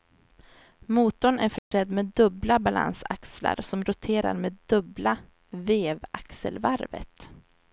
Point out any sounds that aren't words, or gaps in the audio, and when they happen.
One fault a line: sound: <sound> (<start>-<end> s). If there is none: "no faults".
sound: dropout (1.6-1.7 s)